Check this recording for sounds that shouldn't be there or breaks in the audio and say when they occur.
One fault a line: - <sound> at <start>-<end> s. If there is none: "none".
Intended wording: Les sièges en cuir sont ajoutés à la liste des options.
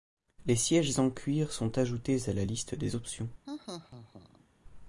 - laugh at 3.5-4.5 s